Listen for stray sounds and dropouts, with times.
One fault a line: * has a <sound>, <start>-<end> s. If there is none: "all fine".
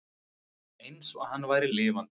all fine